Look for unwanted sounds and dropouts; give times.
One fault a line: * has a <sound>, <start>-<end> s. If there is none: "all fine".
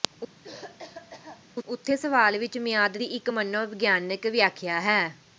* has a cough, 0.4-1.4 s